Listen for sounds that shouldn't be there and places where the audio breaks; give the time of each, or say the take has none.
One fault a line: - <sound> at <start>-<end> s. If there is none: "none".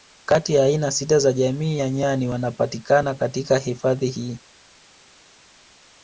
none